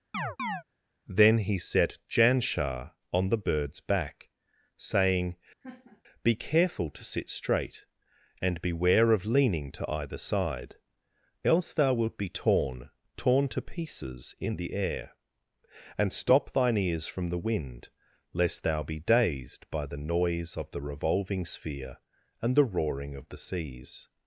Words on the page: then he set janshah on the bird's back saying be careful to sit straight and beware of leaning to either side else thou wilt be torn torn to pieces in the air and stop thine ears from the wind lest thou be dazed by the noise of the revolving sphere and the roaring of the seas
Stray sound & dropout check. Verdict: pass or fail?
fail